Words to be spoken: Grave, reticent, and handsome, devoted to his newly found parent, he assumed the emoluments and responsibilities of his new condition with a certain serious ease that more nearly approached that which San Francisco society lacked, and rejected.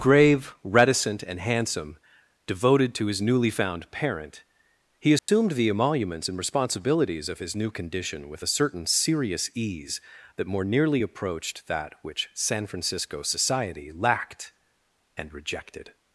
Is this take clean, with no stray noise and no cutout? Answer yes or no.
no